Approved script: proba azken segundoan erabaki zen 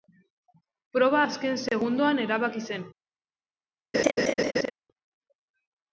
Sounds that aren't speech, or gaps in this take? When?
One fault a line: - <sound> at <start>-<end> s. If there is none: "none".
- laugh at 3.9-4.7 s